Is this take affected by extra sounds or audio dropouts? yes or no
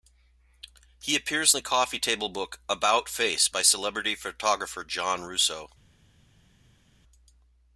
no